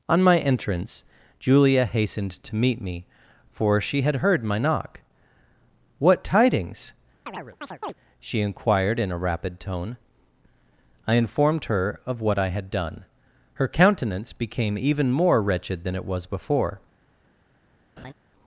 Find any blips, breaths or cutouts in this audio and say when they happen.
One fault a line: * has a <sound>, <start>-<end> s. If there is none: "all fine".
* has a chirp, 7.3-7.9 s
* has a laugh, 18.0-18.1 s